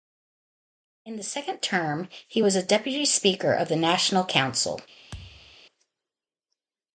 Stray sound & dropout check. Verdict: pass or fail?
fail